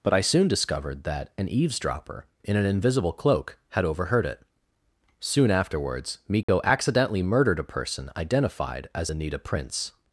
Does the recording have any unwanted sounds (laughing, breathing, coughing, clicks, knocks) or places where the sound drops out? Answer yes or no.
yes